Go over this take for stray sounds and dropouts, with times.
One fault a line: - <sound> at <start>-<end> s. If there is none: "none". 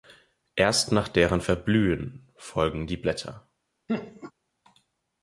- laugh at 3.9-4.3 s